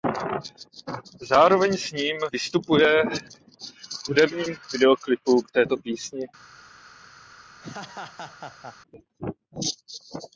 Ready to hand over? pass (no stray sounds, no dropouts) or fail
fail